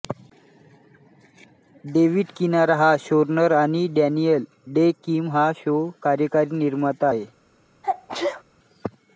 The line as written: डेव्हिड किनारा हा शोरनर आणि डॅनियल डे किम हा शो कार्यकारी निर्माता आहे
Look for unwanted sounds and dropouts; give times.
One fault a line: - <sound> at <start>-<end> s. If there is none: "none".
- sneeze at 7.8-8.4 s